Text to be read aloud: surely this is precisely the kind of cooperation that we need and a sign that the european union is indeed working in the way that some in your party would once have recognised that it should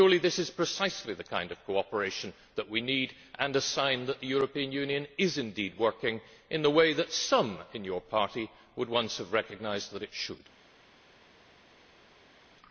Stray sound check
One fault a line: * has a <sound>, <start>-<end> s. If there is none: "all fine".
all fine